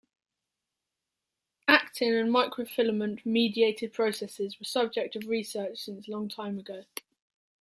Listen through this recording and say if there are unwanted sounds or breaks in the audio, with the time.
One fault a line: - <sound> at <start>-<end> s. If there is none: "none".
none